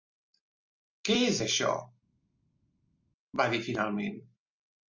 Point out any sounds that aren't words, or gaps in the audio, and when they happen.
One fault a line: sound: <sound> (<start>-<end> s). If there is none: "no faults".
no faults